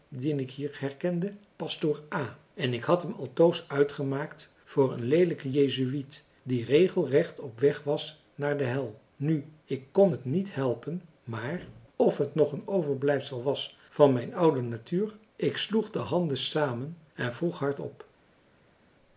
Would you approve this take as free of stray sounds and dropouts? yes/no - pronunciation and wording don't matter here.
yes